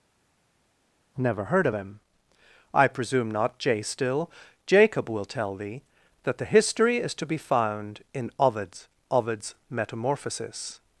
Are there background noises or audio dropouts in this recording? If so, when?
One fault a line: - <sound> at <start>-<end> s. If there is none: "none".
none